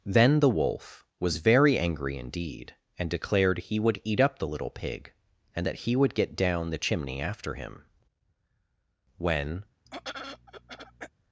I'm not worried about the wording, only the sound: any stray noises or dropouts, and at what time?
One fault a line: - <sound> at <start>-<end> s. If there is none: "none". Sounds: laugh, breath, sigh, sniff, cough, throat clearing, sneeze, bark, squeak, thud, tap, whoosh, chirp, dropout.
- throat clearing at 9.9-11.1 s